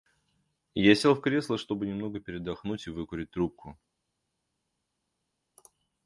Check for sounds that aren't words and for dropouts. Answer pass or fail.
pass